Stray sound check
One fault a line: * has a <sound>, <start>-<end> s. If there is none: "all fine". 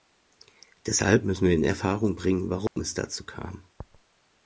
* has a dropout, 2.7-2.8 s